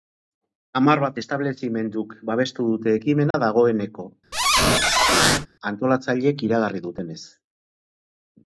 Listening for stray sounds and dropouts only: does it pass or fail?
fail